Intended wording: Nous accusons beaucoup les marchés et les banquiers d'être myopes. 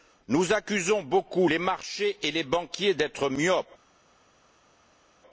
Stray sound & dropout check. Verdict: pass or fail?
pass